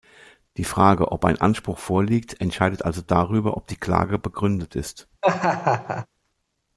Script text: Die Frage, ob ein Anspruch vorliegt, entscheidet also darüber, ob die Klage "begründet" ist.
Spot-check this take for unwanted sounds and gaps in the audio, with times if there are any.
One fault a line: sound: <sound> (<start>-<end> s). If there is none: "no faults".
sound: laugh (5.2-6.1 s)